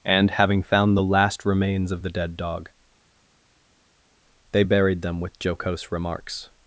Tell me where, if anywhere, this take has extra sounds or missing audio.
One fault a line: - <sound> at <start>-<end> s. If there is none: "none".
none